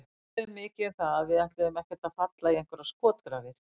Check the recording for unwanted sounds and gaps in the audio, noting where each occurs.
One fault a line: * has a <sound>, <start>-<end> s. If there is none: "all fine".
all fine